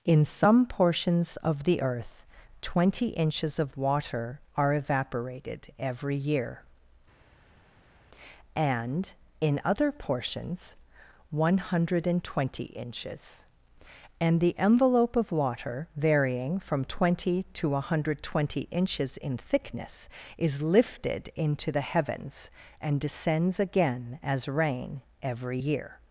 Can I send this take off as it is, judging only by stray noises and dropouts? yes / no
yes